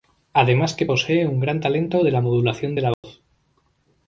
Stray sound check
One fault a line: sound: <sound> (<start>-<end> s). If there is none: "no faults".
sound: dropout (2.9-3.0 s)